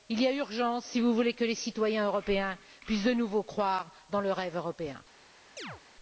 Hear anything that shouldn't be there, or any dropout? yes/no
yes